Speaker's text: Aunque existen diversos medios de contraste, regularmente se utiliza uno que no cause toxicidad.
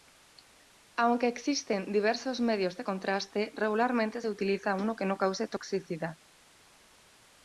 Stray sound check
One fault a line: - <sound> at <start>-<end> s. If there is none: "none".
none